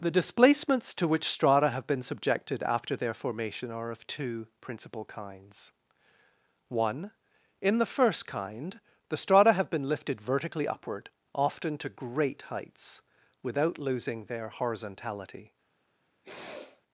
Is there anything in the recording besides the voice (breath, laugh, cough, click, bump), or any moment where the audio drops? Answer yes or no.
yes